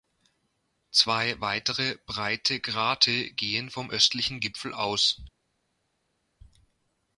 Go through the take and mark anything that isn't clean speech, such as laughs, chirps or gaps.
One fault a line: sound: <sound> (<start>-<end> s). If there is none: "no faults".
no faults